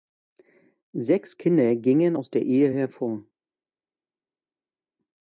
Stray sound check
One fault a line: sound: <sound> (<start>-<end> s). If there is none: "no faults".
no faults